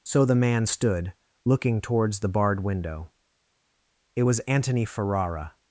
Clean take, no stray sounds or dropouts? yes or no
yes